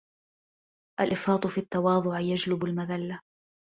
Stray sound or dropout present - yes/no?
no